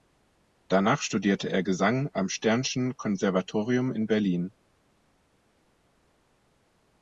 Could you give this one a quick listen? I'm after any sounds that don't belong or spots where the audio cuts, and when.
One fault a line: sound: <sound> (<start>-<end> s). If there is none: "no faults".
no faults